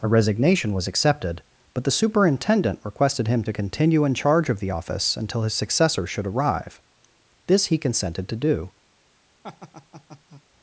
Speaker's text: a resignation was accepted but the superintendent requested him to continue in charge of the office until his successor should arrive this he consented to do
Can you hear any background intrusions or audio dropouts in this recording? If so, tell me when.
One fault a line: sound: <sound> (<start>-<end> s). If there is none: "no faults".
sound: laugh (9.4-10.4 s)